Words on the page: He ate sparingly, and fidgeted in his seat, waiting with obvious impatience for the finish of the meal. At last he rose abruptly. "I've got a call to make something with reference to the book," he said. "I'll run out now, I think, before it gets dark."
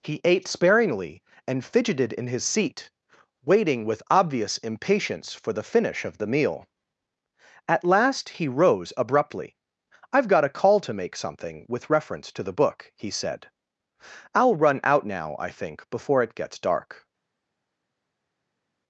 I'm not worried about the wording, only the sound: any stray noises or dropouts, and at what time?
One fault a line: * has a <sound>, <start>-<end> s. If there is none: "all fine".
all fine